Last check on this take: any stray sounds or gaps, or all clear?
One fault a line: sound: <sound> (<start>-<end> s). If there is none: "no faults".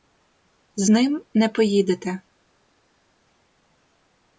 no faults